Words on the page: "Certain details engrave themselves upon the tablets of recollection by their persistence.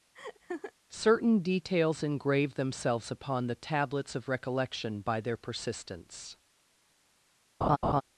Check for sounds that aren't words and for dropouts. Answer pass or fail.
fail